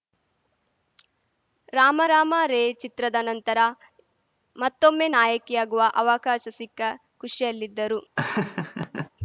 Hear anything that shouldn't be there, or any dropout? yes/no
yes